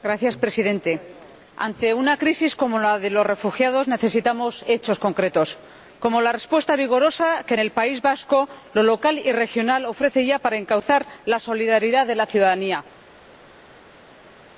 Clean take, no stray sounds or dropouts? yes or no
yes